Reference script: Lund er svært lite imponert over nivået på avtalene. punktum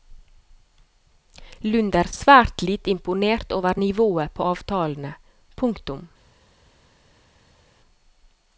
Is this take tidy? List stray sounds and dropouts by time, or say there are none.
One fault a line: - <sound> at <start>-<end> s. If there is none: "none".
none